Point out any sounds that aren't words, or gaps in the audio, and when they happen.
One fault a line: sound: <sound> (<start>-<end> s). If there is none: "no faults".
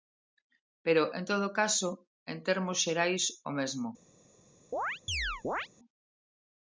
sound: chirp (4.7-5.7 s)